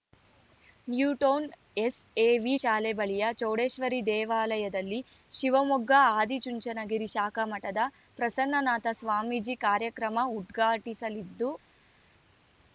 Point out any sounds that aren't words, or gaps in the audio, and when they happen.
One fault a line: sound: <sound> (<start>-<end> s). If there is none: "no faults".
no faults